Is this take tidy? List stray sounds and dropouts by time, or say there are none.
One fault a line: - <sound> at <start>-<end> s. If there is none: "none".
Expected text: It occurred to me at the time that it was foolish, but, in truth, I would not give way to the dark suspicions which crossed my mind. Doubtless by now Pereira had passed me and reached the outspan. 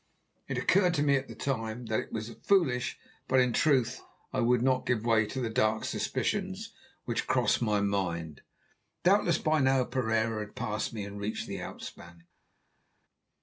none